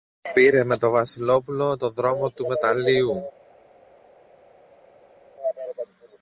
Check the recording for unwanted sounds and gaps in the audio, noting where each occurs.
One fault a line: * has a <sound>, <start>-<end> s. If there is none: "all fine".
all fine